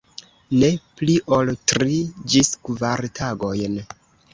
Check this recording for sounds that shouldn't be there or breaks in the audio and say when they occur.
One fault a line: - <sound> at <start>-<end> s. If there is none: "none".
none